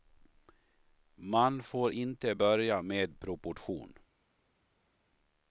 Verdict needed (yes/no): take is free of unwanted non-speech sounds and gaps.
yes